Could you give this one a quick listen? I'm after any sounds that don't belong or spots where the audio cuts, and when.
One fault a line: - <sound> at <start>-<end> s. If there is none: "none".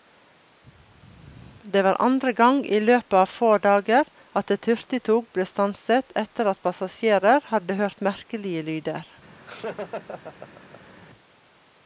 - laugh at 9.5-10.9 s